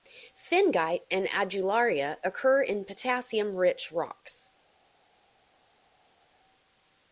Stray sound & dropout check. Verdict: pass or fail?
pass